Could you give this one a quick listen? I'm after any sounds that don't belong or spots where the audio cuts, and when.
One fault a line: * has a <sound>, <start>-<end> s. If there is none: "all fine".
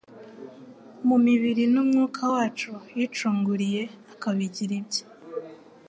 all fine